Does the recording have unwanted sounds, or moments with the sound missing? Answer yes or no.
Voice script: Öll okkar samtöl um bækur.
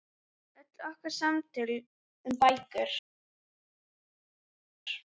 no